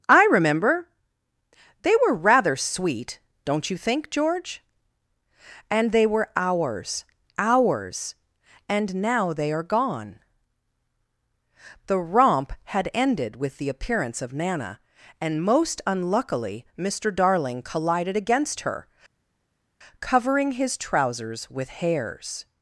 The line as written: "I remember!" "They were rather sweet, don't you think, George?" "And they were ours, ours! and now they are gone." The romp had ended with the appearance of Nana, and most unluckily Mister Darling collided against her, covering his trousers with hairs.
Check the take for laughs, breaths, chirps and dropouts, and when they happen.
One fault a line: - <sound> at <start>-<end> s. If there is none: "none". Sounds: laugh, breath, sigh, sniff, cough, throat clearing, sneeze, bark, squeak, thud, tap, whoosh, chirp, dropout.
none